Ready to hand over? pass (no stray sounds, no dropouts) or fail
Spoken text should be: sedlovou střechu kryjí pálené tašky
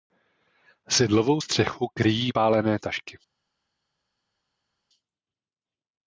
pass